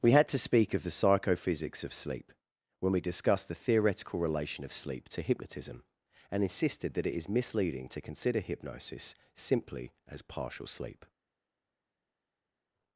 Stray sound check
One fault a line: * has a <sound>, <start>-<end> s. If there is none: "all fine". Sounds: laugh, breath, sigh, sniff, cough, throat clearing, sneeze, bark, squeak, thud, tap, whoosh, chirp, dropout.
all fine